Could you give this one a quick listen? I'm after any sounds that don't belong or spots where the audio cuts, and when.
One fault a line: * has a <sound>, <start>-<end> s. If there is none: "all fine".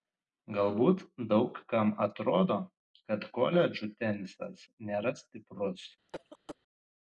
* has a cough, 6.1-6.6 s